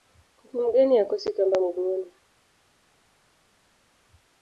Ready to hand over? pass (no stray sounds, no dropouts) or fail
pass